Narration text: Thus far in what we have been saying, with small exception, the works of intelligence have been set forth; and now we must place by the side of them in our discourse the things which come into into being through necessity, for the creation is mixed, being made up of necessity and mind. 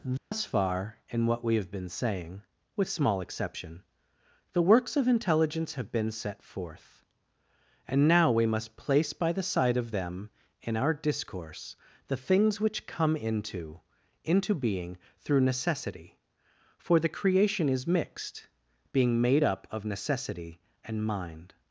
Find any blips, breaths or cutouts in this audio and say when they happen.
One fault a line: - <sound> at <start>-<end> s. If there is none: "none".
- dropout at 0.2-0.3 s